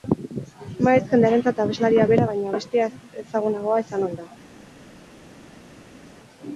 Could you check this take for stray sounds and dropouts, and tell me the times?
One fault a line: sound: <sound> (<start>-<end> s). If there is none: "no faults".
no faults